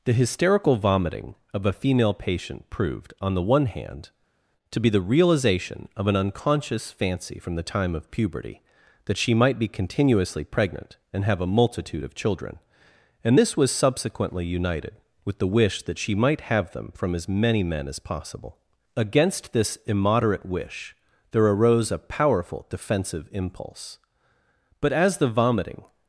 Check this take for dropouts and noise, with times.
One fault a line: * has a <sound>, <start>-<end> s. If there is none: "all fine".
all fine